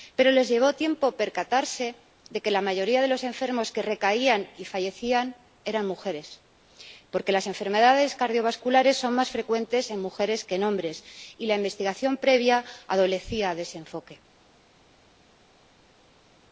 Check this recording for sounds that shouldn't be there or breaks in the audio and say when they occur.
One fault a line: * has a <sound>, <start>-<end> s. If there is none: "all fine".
all fine